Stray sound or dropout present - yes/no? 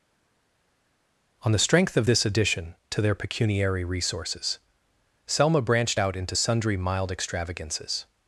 no